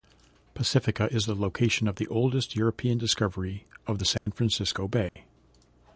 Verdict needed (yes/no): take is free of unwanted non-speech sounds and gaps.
no